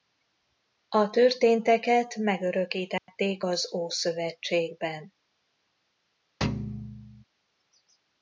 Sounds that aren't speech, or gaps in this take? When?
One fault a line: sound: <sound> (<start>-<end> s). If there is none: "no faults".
sound: dropout (3.0-3.1 s)
sound: thud (6.4-7.2 s)